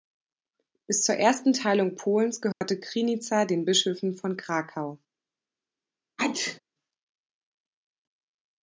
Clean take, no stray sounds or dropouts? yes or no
no